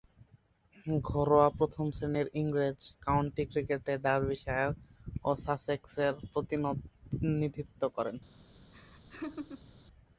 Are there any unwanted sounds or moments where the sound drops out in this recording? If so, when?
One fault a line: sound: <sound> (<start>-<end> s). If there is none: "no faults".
sound: laugh (8.7-9.7 s)